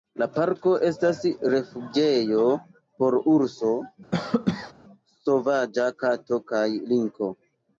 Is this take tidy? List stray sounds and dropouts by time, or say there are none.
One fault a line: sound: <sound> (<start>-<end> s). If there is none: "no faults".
sound: cough (4.1-4.7 s)